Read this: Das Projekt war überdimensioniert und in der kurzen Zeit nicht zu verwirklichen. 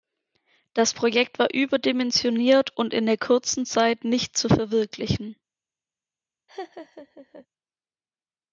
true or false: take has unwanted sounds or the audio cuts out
true